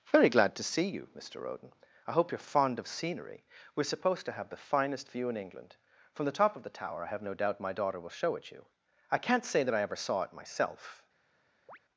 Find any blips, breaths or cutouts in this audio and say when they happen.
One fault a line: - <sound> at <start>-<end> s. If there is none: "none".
- chirp at 11.7-11.8 s